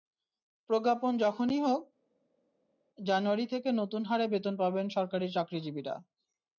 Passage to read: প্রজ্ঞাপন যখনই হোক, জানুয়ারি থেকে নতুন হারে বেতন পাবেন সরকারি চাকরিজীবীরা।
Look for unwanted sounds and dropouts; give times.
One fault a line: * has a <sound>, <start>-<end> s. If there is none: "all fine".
all fine